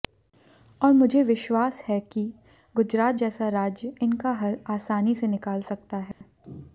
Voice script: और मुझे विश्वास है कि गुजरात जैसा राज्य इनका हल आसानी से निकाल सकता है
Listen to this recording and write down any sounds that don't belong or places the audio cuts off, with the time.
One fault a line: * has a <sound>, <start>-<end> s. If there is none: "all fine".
* has a dropout, 6.1-6.2 s